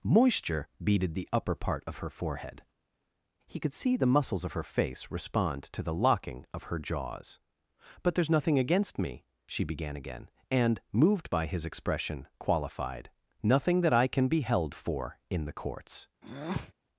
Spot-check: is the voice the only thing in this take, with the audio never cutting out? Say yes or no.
no